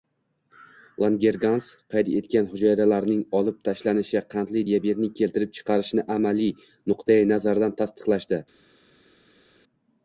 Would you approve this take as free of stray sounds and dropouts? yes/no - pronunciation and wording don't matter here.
yes